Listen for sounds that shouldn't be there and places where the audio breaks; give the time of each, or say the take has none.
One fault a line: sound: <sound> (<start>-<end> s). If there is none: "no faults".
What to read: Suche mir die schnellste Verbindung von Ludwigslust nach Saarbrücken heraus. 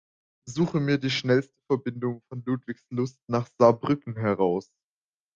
no faults